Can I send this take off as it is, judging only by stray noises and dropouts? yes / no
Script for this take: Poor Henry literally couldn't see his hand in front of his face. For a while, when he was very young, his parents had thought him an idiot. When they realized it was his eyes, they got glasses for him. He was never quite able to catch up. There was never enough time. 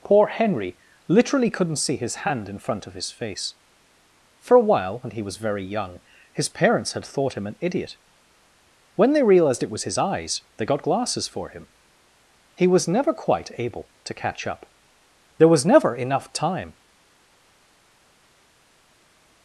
yes